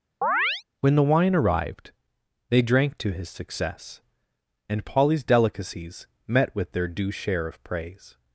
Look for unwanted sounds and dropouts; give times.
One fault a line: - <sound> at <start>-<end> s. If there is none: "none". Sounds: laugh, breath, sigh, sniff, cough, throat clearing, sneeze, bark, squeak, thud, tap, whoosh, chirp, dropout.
- chirp at 0.2-0.6 s